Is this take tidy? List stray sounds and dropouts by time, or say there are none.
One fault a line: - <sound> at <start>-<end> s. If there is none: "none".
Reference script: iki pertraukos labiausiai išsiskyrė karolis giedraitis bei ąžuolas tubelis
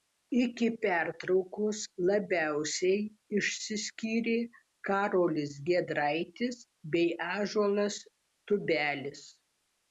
none